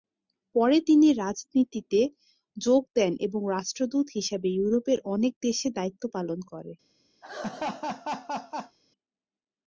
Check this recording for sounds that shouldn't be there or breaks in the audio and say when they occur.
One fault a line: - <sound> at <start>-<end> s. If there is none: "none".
- laugh at 7.2-8.8 s